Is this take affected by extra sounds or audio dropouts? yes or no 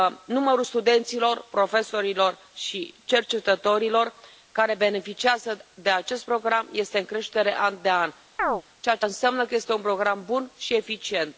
yes